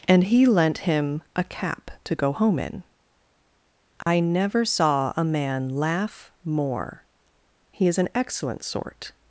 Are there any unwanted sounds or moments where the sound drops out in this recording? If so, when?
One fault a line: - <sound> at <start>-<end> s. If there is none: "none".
- dropout at 4.0-4.1 s